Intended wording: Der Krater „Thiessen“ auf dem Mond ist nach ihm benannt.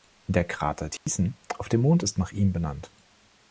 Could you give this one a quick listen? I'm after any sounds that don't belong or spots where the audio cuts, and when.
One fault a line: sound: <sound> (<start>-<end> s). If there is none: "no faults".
sound: dropout (1.0-1.1 s)